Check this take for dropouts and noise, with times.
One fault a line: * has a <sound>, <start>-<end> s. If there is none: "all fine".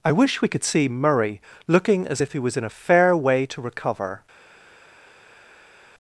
all fine